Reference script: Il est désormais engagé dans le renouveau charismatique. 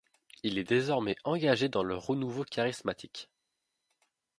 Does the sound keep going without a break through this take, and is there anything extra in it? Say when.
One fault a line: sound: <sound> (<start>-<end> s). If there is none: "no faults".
no faults